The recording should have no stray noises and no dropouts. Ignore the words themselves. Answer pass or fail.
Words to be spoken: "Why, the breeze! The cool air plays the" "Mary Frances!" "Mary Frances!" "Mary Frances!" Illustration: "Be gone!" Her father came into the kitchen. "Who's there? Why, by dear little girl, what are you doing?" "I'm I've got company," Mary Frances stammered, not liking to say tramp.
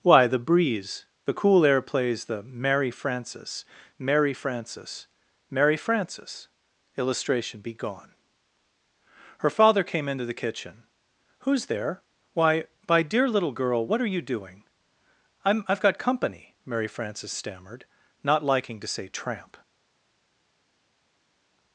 pass